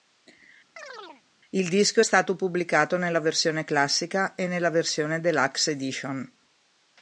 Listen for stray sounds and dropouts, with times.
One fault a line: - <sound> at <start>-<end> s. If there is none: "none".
- chirp at 0.8-1.2 s